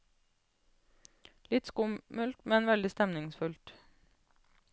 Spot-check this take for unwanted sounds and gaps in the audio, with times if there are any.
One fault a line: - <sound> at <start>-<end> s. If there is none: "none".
none